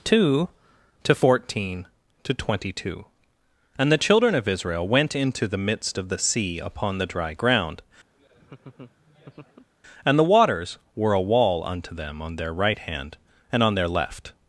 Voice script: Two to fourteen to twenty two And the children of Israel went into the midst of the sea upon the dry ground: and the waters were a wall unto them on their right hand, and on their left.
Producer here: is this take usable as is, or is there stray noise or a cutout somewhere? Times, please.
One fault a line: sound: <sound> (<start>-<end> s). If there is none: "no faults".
sound: laugh (8.1-9.7 s)